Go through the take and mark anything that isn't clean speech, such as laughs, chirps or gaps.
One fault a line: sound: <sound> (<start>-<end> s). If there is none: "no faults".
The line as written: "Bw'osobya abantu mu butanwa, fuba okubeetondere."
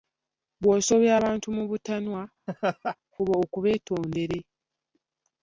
sound: laugh (2.5-3.0 s)